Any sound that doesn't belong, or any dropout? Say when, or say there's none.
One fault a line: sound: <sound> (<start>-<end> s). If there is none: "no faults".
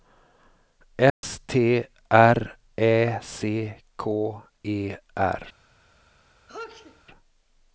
sound: dropout (1.1-1.2 s)
sound: sneeze (6.5-7.0 s)